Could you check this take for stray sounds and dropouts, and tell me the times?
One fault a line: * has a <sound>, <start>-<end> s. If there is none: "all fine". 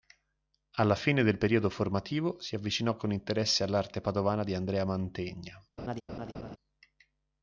* has a laugh, 5.8-6.6 s